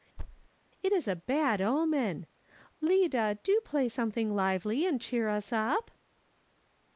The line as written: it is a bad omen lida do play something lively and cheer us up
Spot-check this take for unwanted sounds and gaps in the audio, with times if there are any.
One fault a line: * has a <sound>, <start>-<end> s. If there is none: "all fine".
* has a thud, 0.2-0.5 s